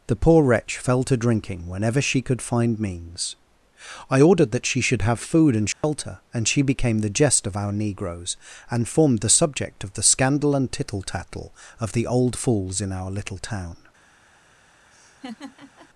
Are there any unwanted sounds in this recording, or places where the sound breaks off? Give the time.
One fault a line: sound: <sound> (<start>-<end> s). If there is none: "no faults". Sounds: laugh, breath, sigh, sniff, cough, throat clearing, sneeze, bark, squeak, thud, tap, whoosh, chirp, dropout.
sound: dropout (5.7-5.8 s)
sound: laugh (14.9-15.9 s)